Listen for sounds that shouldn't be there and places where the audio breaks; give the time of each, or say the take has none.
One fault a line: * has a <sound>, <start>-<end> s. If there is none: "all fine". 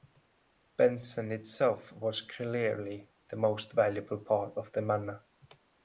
all fine